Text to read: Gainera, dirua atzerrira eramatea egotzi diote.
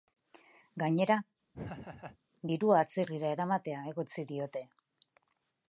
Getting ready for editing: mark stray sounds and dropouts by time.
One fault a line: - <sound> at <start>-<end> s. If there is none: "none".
- laugh at 1.5-2.2 s